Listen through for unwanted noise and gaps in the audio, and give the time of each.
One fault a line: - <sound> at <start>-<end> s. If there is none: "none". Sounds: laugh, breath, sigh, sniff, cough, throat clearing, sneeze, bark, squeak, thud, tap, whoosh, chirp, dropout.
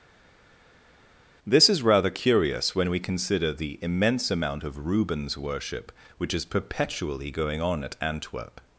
none